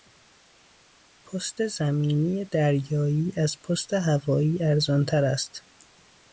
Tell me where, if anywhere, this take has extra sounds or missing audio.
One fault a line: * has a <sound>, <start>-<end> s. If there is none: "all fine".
all fine